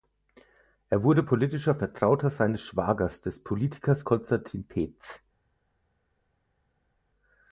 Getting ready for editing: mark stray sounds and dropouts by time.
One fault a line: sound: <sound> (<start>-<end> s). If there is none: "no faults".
no faults